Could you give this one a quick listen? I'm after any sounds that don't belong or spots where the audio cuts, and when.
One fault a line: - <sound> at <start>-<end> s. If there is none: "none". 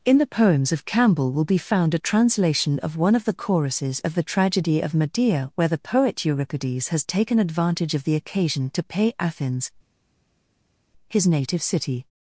none